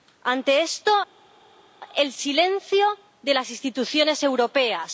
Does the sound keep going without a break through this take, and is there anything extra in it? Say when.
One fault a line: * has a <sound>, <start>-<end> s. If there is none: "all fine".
all fine